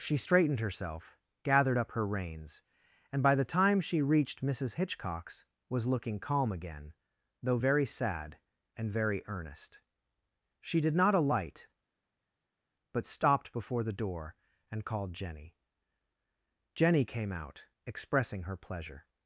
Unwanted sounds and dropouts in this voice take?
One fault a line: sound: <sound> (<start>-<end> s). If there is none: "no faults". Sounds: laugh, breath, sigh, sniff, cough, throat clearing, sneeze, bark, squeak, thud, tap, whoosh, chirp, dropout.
no faults